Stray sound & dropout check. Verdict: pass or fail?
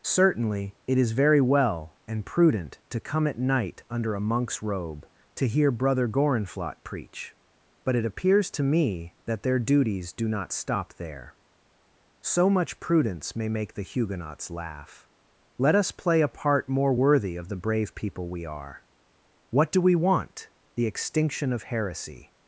pass